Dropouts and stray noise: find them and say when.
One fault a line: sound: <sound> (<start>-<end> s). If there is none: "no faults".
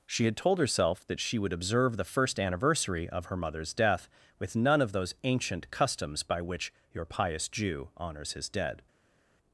no faults